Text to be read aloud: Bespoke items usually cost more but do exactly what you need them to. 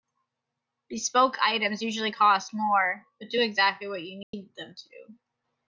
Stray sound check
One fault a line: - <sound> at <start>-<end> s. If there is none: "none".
- dropout at 4.2-4.3 s